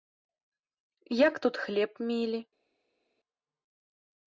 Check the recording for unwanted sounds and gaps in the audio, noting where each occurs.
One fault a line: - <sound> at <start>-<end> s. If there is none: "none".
none